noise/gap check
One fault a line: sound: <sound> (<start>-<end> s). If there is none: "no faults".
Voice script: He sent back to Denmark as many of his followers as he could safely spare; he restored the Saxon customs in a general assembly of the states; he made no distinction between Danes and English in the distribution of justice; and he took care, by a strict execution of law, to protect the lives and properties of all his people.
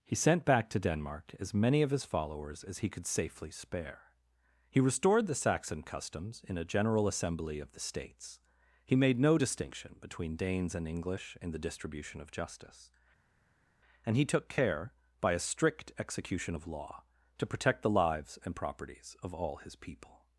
no faults